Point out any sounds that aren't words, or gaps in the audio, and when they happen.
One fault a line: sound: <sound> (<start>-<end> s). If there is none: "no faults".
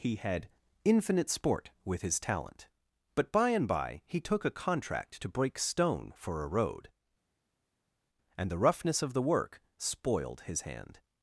no faults